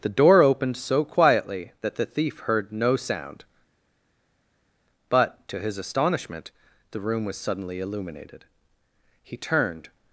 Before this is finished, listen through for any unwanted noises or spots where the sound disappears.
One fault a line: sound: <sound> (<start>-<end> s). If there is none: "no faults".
no faults